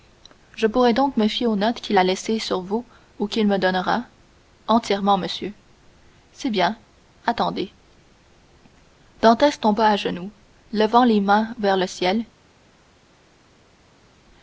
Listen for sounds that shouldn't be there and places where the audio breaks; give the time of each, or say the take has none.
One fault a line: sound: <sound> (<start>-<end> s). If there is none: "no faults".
no faults